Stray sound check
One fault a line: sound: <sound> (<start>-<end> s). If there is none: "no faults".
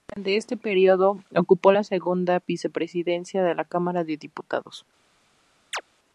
sound: chirp (5.7-5.8 s)